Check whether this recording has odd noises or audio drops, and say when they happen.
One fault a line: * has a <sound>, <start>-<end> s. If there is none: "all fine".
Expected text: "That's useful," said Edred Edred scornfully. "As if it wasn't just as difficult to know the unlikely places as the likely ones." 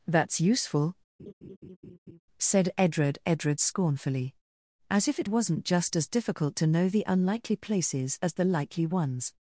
* has a laugh, 1.2-2.2 s